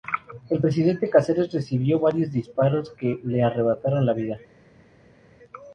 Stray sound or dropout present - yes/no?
no